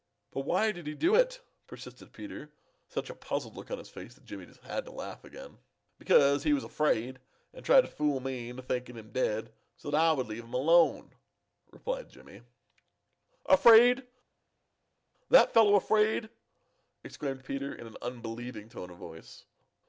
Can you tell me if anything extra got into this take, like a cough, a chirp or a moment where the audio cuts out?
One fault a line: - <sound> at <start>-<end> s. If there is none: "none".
none